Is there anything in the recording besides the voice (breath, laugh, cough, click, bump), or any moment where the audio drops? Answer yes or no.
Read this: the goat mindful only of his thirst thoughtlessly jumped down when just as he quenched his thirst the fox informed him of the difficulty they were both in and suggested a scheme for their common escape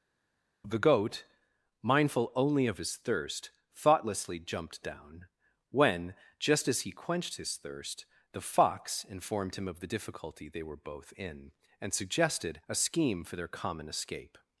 no